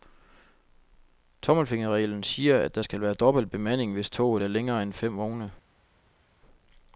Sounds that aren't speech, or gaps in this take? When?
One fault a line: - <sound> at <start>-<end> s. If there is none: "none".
none